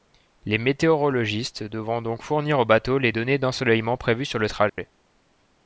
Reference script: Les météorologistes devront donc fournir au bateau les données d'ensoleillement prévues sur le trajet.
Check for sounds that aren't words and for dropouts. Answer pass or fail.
fail